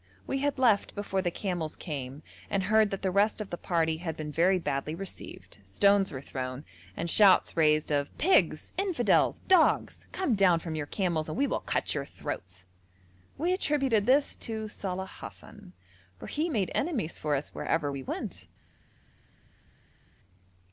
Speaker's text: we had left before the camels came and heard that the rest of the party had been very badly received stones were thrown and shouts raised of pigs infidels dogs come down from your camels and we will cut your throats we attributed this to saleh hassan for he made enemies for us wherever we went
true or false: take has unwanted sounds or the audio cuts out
false